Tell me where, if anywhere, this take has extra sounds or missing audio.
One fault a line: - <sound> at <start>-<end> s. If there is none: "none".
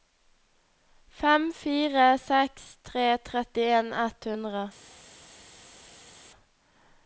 none